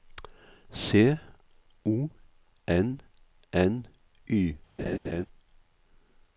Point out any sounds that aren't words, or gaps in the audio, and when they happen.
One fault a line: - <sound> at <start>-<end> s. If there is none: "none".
- laugh at 4.8-5.3 s